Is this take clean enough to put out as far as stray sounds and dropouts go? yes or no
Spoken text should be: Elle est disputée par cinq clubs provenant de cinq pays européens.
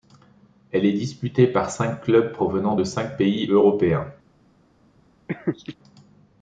no